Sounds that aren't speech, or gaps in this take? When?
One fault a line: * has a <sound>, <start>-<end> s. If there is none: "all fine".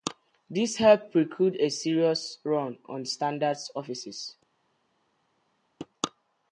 all fine